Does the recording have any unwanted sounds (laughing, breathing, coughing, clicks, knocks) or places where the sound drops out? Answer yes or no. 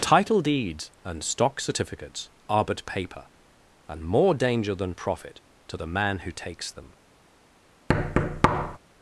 yes